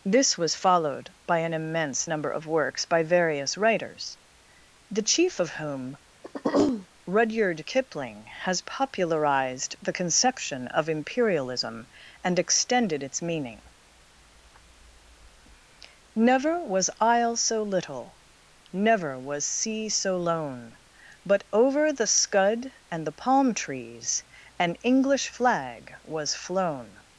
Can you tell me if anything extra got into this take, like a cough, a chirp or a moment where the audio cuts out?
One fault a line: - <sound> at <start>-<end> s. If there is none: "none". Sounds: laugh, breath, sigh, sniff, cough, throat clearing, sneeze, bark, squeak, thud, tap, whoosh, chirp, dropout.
- throat clearing at 6.2-6.9 s